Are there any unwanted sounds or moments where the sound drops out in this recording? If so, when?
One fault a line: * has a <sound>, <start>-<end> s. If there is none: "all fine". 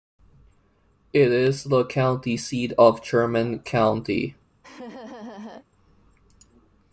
* has a laugh, 4.6-5.7 s